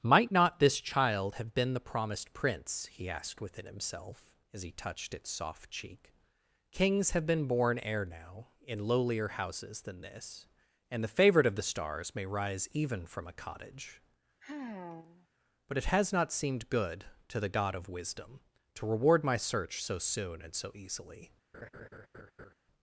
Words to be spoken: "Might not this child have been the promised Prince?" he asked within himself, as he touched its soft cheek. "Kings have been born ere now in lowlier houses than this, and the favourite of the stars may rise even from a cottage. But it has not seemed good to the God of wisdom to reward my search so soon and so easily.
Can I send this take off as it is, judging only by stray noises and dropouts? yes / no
no